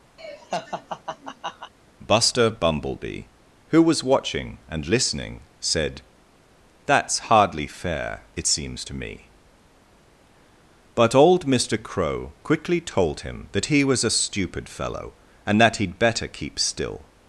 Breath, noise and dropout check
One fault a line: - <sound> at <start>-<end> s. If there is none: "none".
- laugh at 0.2-1.7 s